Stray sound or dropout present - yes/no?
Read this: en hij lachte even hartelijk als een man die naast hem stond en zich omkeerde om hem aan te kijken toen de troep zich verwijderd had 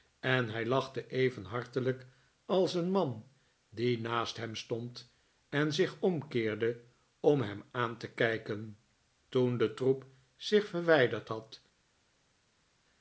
no